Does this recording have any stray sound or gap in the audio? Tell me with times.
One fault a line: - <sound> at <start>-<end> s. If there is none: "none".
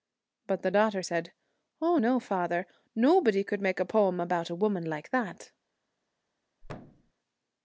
- thud at 6.6-7.1 s